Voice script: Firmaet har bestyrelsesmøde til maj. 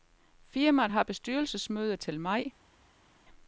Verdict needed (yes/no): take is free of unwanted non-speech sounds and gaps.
yes